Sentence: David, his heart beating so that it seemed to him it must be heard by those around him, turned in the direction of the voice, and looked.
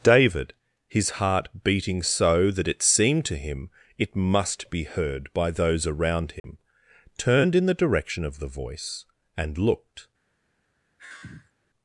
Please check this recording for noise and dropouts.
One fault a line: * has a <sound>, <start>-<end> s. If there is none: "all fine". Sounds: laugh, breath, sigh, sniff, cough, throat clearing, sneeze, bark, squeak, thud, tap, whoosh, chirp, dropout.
* has a dropout, 6.4-6.4 s
* has a sigh, 11.0-11.5 s